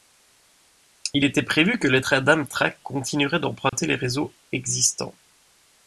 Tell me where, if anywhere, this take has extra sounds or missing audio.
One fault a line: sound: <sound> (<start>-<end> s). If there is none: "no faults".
sound: dropout (3.7-3.7 s)